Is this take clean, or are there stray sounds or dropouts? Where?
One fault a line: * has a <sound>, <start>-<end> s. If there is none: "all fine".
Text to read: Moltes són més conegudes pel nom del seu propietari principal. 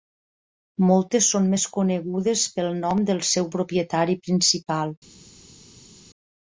all fine